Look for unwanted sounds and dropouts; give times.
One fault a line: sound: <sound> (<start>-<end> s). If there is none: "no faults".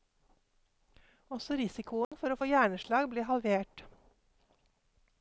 sound: dropout (2.0-2.1 s)